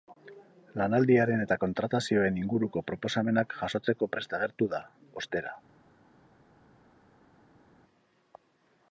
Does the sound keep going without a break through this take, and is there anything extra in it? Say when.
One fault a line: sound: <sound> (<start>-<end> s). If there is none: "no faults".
no faults